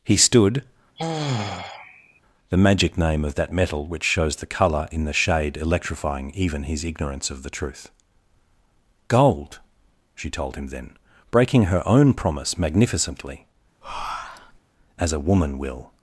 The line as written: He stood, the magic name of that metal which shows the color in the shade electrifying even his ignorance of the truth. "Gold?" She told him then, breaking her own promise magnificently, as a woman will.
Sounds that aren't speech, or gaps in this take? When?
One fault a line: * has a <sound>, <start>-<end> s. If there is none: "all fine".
* has a sigh, 1.0-2.2 s
* has a breath, 13.8-14.6 s